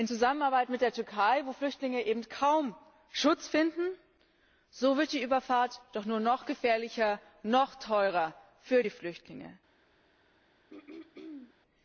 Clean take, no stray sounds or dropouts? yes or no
no